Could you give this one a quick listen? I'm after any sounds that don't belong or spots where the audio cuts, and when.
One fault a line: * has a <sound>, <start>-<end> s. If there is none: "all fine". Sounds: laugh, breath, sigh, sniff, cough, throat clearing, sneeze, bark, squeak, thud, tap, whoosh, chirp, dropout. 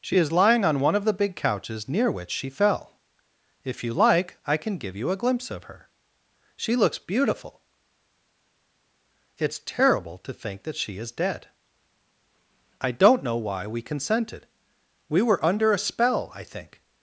all fine